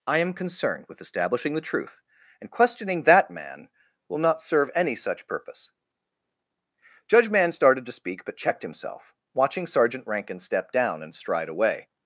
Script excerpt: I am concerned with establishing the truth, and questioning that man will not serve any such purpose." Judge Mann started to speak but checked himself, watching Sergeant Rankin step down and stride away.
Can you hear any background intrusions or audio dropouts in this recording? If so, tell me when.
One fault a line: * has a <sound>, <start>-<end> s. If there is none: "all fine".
all fine